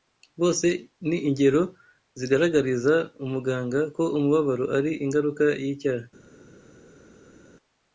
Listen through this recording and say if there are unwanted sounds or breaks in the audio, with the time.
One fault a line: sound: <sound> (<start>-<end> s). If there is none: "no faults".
no faults